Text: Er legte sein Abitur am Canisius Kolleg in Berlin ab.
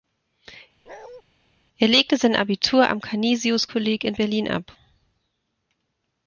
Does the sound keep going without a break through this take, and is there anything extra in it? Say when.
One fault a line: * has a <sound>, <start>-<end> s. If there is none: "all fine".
* has a bark, 0.9-1.2 s